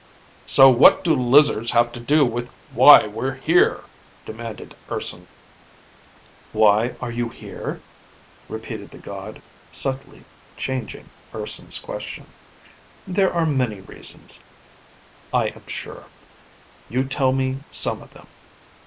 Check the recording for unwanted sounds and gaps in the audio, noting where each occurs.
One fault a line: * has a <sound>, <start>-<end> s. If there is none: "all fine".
all fine